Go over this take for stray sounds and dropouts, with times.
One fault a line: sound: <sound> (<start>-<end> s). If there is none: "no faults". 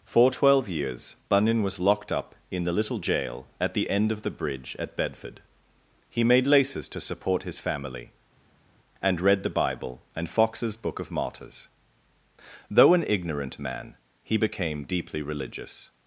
no faults